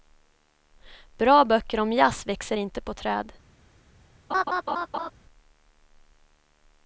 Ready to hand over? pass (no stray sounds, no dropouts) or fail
fail